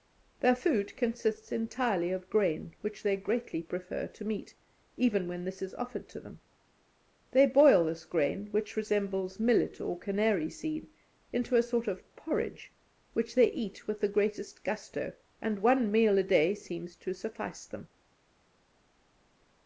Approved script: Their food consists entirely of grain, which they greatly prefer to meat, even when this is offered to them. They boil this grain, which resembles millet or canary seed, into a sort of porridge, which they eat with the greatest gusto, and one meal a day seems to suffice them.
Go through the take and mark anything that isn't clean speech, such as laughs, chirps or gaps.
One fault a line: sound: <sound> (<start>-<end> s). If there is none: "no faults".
no faults